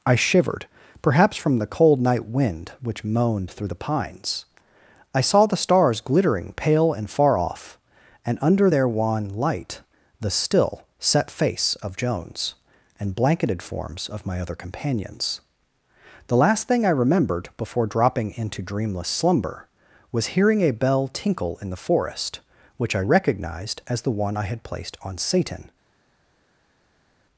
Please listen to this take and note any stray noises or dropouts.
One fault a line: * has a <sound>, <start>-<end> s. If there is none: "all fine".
all fine